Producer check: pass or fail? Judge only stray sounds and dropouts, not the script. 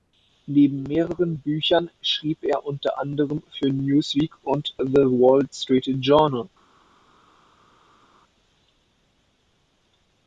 pass